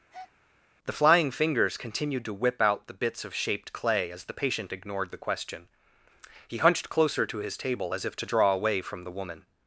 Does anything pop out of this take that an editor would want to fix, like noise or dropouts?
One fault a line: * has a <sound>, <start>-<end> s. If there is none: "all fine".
* has a breath, 0.1-0.3 s